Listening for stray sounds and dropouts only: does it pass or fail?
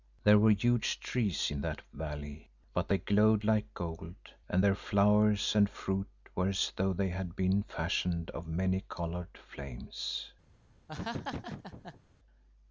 fail